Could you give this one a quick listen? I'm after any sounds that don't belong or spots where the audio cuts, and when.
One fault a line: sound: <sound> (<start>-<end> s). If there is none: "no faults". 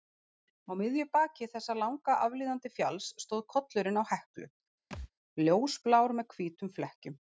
sound: thud (4.9-5.1 s)